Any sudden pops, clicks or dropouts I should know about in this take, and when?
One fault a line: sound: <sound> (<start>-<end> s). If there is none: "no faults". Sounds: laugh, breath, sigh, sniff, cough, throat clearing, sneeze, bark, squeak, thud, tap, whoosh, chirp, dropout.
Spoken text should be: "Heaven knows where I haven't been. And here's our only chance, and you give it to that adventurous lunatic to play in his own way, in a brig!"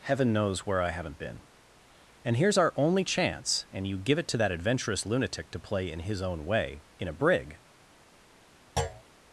sound: thud (8.8-9.0 s)